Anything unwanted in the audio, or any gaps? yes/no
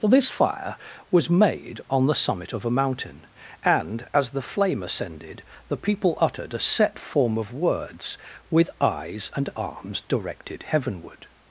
no